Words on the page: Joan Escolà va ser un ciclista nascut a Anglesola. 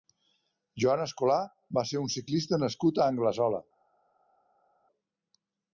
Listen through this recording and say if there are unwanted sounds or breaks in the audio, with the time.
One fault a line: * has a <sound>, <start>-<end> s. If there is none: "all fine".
all fine